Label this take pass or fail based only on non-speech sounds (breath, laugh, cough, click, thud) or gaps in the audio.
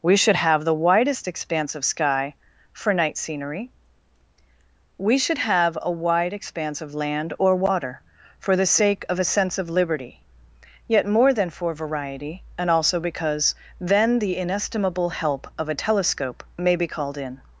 pass